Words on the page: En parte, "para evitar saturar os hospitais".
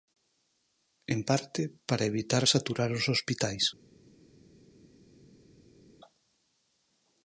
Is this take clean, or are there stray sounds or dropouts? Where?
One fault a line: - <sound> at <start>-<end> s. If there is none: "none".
none